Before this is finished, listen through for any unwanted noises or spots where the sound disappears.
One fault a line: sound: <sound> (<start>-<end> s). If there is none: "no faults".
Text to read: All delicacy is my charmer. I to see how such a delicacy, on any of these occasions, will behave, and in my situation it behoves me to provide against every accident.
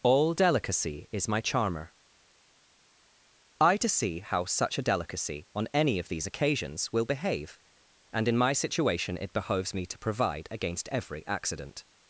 no faults